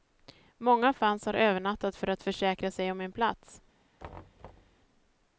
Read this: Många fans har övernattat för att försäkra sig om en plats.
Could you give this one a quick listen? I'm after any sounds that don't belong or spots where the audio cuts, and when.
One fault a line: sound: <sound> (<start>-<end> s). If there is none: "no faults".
sound: thud (4.0-4.8 s)